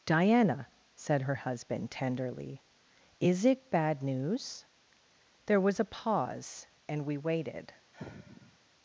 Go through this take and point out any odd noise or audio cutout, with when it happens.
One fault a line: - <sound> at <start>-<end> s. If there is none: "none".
- sigh at 7.9-8.6 s